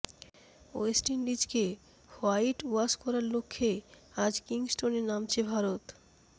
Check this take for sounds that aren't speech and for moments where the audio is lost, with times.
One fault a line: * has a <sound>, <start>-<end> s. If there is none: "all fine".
all fine